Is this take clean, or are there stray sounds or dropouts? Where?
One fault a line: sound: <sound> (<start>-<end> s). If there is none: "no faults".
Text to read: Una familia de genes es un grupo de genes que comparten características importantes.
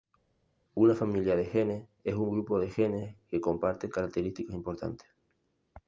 no faults